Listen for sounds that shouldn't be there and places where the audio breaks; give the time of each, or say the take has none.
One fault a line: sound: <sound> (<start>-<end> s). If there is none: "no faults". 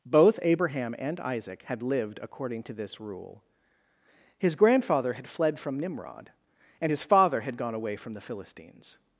no faults